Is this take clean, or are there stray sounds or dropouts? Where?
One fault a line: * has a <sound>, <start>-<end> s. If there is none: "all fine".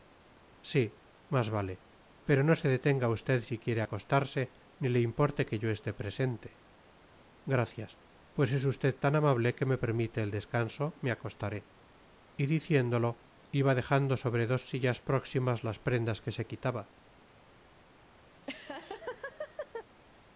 * has a laugh, 18.3-19.9 s